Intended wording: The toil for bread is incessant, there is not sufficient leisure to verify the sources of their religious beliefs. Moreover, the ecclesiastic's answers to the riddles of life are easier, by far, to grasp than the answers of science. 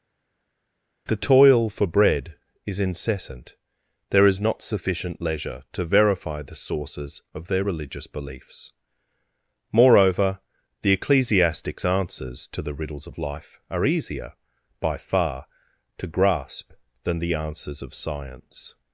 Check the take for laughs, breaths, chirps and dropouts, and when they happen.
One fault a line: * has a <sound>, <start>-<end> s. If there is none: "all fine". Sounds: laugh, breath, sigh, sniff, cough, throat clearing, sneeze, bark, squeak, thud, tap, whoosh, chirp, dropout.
all fine